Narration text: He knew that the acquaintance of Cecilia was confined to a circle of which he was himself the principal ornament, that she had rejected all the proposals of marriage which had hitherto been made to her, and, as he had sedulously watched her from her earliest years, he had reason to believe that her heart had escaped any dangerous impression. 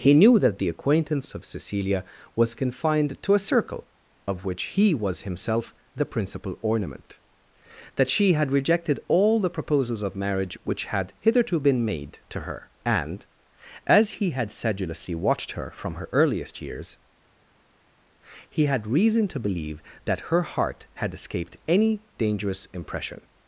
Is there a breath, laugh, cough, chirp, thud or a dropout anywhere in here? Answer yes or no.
no